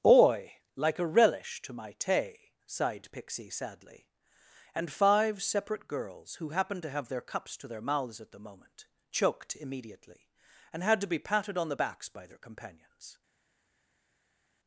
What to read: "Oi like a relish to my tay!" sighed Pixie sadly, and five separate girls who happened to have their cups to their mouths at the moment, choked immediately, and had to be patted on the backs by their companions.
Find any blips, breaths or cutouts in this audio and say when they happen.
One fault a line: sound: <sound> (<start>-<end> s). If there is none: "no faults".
no faults